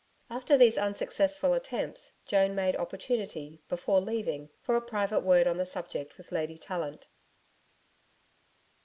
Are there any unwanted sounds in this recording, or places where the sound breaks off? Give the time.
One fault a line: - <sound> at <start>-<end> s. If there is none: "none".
none